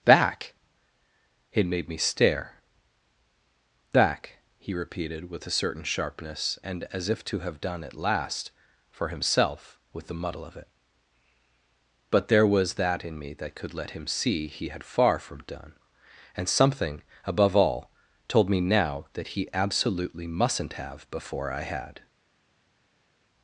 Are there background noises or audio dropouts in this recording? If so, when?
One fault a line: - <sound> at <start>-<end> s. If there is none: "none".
none